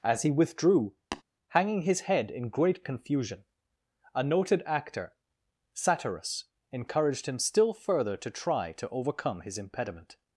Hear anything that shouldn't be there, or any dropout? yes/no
yes